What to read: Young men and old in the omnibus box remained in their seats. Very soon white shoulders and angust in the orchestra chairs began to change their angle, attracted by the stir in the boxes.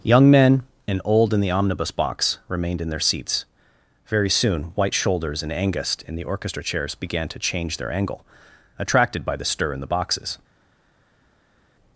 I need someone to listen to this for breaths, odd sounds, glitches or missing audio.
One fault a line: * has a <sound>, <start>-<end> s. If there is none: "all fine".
all fine